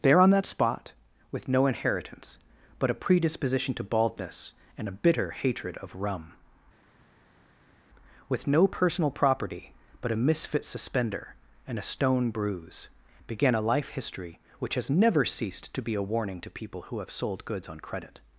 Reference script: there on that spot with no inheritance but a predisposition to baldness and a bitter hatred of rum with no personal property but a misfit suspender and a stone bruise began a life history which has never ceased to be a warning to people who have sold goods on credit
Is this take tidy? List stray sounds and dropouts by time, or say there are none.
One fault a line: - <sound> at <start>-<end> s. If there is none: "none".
none